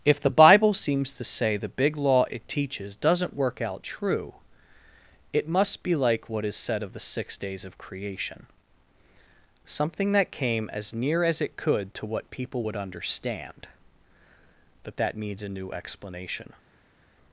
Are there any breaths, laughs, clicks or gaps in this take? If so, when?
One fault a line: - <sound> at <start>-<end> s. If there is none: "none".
none